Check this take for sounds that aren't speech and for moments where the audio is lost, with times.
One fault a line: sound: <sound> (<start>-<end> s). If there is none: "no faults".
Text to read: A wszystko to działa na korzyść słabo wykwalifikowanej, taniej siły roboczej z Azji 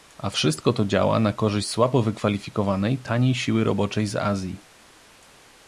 no faults